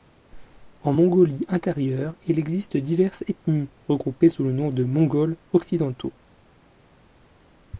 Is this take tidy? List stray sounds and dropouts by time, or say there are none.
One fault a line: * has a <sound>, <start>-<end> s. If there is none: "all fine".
all fine